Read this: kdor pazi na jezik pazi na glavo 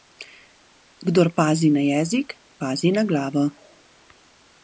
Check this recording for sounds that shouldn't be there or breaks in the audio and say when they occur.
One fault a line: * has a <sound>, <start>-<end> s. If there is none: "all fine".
all fine